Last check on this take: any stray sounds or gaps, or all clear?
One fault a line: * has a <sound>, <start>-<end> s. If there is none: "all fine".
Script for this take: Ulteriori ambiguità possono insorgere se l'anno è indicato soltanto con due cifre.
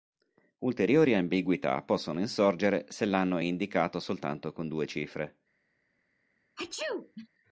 * has a sneeze, 6.6-7.3 s